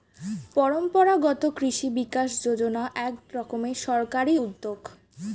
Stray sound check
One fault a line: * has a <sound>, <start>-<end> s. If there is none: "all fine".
all fine